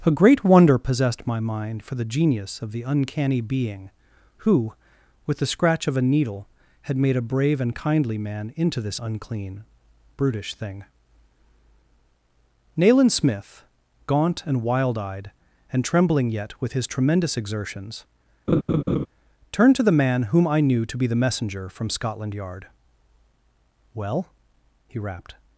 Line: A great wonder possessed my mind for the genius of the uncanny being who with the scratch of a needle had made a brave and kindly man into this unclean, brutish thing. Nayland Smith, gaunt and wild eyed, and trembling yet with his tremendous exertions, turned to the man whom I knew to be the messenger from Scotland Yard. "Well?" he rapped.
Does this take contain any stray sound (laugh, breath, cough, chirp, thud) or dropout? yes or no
yes